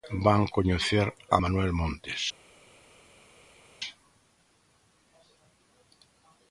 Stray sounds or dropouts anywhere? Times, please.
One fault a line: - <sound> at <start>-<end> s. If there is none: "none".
none